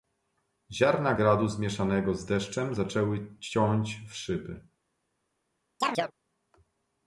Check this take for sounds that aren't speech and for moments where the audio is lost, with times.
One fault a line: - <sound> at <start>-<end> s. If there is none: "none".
- chirp at 5.8-6.1 s